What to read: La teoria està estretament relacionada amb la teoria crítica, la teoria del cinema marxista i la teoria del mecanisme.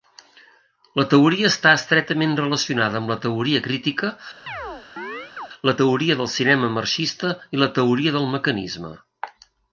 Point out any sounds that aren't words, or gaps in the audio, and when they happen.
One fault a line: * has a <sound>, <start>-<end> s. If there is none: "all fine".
* has a chirp, 4.5-5.5 s